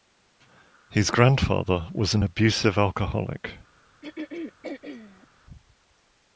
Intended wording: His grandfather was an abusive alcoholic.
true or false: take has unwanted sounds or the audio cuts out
true